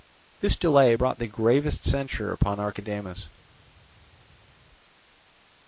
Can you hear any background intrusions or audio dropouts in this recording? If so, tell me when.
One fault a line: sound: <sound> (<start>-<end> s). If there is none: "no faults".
no faults